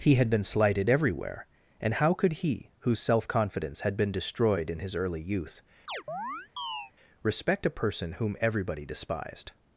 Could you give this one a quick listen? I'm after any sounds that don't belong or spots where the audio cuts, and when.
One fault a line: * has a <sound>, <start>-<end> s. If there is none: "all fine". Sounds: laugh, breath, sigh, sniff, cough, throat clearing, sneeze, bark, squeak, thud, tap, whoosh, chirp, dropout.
* has a chirp, 5.9-6.9 s